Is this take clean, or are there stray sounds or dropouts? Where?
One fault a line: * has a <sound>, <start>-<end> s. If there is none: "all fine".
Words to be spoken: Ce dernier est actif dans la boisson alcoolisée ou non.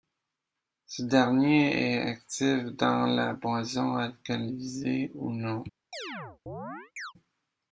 * has a chirp, 5.9-7.1 s